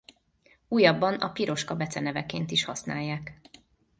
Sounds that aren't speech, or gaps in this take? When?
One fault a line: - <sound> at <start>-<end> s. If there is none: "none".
none